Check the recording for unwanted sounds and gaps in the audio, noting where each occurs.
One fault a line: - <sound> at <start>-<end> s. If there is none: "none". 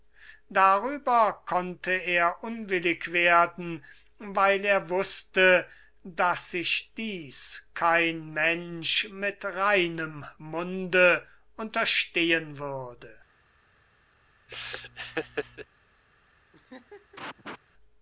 - laugh at 14.5-15.7 s
- laugh at 16.5-17.6 s